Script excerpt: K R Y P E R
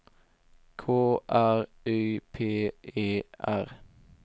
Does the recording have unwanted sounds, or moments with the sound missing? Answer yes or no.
no